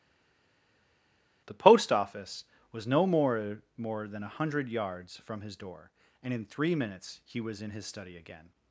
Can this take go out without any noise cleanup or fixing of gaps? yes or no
yes